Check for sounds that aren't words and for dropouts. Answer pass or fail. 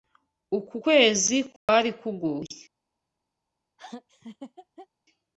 fail